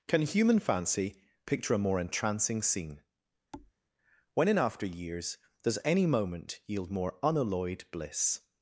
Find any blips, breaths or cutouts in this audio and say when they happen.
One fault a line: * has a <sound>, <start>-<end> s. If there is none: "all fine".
* has a thud, 3.5-3.7 s